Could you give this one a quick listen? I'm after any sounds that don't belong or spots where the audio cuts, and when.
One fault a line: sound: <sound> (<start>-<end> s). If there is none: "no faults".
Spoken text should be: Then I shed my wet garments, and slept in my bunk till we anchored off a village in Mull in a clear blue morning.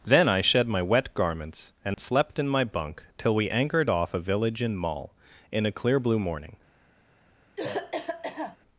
sound: dropout (1.9-2.0 s)
sound: cough (7.6-8.6 s)